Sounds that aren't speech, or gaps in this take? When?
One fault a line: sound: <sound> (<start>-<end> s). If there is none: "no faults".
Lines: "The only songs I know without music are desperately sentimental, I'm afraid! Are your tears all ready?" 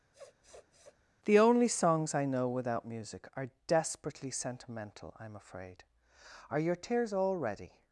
sound: sniff (0.1-1.0 s)